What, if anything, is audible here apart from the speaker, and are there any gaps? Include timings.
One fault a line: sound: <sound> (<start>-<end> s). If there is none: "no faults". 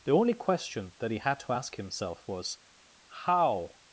no faults